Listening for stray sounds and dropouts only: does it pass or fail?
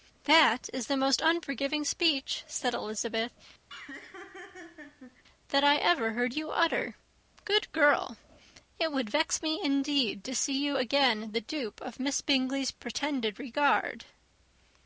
fail